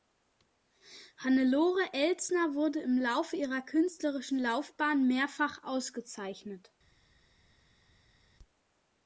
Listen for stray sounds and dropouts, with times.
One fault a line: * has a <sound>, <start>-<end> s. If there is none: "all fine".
all fine